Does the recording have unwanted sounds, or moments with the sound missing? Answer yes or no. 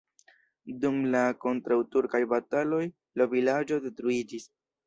no